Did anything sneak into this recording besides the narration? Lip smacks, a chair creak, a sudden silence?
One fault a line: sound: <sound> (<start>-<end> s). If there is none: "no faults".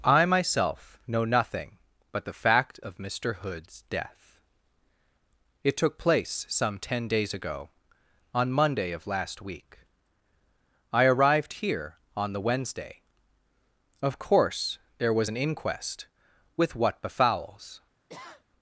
sound: sniff (18.1-18.4 s)